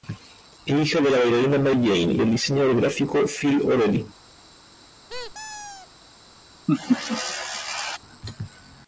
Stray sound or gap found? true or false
true